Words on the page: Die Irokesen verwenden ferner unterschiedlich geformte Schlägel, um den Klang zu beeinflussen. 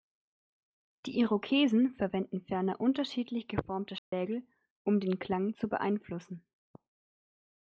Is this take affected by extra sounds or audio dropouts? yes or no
yes